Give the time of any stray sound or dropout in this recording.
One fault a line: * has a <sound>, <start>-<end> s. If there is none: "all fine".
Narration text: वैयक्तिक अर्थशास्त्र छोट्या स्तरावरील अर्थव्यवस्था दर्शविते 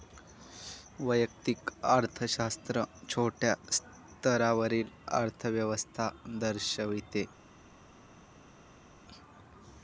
all fine